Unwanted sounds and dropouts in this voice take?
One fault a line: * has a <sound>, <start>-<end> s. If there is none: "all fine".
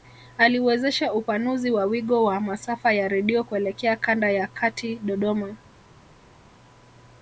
all fine